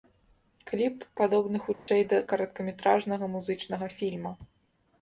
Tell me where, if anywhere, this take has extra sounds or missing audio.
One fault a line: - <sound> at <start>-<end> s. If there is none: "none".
- dropout at 1.7-1.9 s